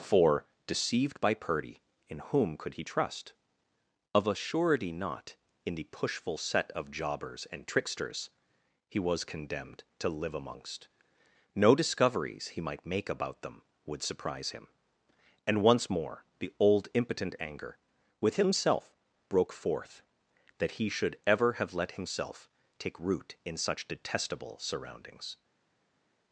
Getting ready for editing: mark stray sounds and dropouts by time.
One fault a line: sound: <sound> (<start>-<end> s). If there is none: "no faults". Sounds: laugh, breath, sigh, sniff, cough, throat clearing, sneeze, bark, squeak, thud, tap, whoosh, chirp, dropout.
no faults